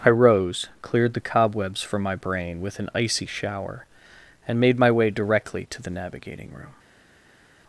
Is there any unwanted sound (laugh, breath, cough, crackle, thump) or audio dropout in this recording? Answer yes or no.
no